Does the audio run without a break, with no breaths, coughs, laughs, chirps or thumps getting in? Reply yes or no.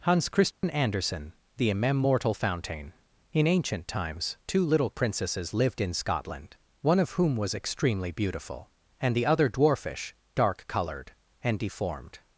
no